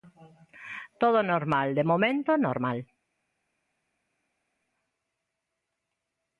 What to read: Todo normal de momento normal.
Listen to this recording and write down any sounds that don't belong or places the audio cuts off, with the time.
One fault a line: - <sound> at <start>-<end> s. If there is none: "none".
none